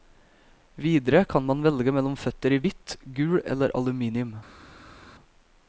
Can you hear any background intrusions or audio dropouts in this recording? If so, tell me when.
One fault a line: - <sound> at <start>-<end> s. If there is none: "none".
none